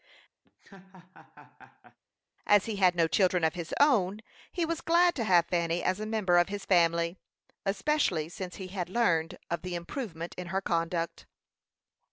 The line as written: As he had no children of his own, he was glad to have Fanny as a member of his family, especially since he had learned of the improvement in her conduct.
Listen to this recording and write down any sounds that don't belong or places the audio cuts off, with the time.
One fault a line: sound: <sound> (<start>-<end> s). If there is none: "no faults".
sound: laugh (0.4-2.0 s)